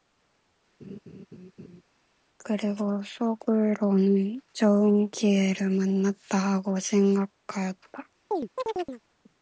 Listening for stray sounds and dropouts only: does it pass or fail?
fail